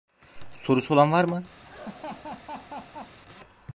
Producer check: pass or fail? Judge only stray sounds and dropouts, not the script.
fail